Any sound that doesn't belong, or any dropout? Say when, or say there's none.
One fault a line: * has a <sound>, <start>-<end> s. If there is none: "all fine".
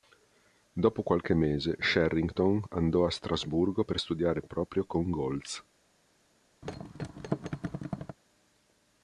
* has a thud, 6.6-8.2 s